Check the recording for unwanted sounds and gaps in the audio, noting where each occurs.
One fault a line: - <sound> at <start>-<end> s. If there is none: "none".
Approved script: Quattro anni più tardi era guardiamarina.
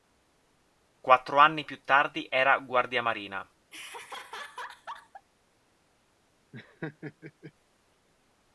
- laugh at 3.7-5.3 s
- laugh at 6.5-7.5 s